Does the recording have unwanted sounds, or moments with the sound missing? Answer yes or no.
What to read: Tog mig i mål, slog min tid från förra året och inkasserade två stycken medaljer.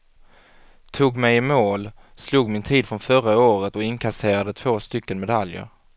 no